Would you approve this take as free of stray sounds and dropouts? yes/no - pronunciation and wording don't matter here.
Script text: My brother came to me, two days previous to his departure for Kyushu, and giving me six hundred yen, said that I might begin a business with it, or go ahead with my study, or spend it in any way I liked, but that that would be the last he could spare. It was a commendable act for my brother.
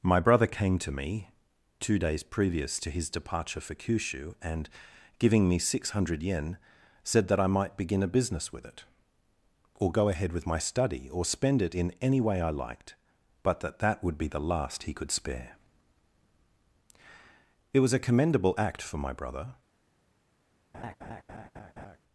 no